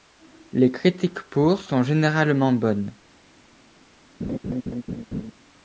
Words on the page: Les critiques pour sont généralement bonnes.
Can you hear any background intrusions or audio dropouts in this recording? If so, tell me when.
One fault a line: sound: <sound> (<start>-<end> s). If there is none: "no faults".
sound: laugh (4.2-5.3 s)